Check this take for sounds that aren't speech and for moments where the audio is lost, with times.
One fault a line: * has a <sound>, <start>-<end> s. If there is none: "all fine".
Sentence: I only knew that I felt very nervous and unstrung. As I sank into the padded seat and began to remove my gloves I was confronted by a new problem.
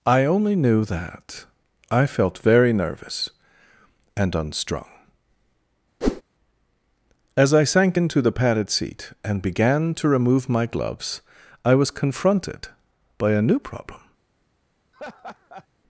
* has a whoosh, 6.0-6.2 s
* has a laugh, 14.9-15.7 s